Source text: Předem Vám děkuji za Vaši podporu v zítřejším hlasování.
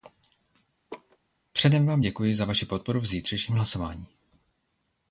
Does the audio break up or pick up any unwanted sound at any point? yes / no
yes